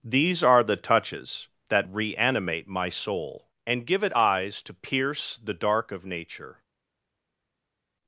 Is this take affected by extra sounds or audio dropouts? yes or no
no